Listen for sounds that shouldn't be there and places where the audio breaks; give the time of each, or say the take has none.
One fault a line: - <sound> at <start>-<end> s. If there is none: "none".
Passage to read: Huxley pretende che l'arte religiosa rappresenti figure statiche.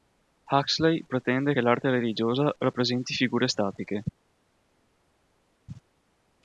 none